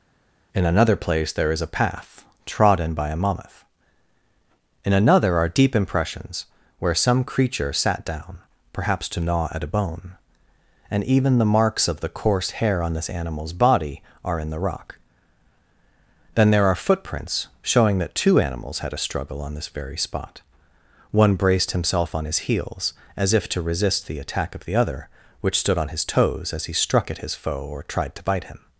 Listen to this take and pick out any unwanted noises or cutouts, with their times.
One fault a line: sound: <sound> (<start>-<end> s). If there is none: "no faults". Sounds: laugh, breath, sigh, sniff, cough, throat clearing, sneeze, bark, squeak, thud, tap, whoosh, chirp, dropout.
no faults